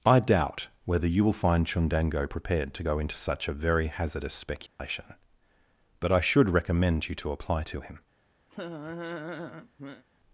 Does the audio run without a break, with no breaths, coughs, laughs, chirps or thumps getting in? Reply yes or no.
no